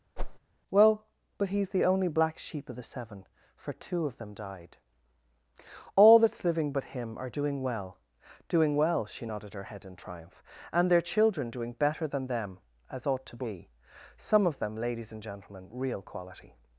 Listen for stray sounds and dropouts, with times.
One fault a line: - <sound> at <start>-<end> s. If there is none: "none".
- whoosh at 0.2-0.4 s